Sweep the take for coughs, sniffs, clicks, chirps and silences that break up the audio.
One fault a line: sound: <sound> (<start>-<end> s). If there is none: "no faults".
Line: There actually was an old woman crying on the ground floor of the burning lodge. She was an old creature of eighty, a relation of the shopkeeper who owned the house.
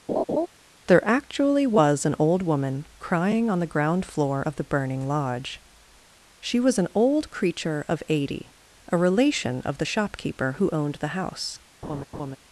sound: laugh (0.1-0.5 s)
sound: laugh (11.8-12.4 s)